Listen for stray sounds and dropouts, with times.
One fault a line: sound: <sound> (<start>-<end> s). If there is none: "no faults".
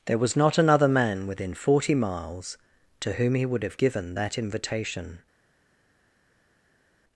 no faults